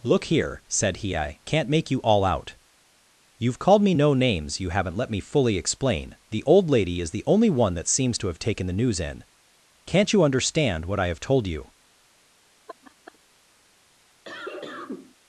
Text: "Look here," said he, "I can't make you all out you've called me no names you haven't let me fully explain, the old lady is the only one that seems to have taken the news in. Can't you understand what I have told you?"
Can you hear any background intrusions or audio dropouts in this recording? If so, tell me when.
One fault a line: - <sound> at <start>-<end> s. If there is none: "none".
- laugh at 12.7-13.2 s
- cough at 14.2-15.2 s